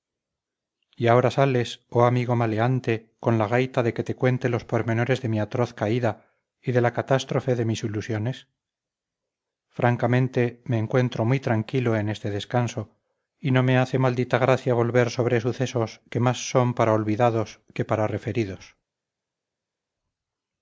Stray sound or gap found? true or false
false